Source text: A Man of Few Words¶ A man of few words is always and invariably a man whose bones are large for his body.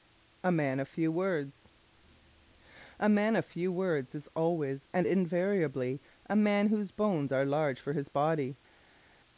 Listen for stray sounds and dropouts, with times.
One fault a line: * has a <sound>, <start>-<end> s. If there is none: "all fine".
all fine